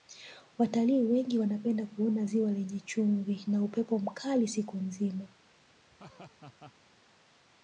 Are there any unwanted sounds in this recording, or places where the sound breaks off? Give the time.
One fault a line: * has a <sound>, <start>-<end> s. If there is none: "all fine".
* has a laugh, 5.9-6.7 s